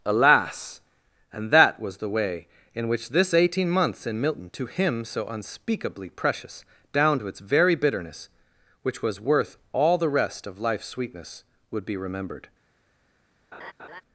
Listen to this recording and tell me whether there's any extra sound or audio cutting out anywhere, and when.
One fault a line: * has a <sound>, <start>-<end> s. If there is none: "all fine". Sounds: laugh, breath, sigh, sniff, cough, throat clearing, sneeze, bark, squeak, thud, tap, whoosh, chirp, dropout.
* has a laugh, 13.5-14.0 s